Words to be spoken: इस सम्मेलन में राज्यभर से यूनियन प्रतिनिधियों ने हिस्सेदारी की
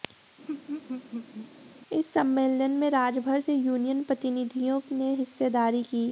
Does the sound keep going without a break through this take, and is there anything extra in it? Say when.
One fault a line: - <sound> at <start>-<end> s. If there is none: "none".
- laugh at 0.5-1.5 s